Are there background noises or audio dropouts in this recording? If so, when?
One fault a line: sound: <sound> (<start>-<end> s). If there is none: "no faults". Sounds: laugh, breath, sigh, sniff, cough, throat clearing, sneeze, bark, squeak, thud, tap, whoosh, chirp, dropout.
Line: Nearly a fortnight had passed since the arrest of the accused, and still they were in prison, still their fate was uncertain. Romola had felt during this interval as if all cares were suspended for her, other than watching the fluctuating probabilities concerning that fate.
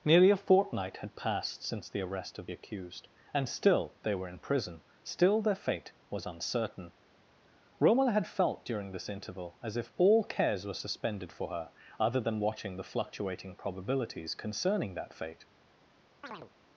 sound: chirp (16.2-16.5 s)